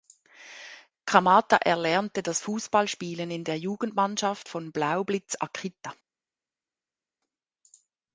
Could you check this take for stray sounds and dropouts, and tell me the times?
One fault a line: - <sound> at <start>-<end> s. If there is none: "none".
none